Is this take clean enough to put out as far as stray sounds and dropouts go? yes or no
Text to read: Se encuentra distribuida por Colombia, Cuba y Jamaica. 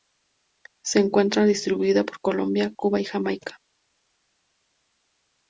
yes